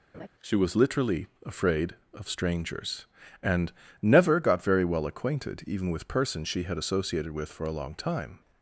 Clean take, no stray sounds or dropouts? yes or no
no